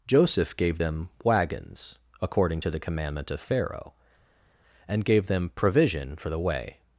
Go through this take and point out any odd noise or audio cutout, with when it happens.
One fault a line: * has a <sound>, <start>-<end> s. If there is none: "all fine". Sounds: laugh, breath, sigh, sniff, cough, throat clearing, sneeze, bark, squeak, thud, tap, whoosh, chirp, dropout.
all fine